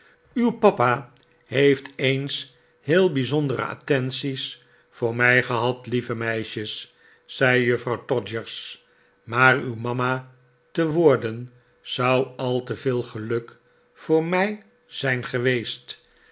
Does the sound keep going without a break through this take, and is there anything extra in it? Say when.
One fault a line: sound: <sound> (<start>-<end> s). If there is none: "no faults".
no faults